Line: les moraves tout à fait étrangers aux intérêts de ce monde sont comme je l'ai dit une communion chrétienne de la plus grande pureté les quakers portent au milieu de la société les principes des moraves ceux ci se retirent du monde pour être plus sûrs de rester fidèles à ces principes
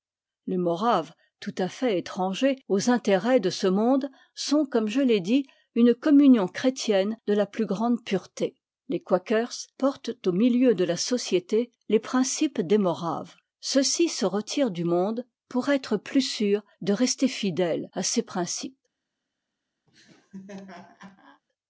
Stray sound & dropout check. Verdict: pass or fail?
fail